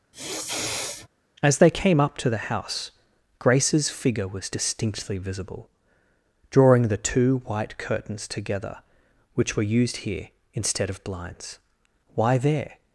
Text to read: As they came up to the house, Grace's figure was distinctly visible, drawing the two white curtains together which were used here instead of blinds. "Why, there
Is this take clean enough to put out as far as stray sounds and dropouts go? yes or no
no